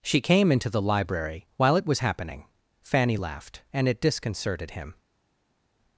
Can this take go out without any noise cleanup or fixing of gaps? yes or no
yes